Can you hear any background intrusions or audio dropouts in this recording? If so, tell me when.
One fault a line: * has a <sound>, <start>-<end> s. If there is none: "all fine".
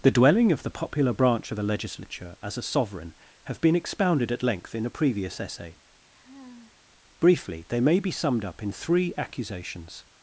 * has a sigh, 6.1-6.8 s